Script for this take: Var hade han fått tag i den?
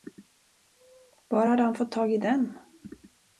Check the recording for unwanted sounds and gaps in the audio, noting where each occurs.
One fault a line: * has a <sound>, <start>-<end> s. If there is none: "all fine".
all fine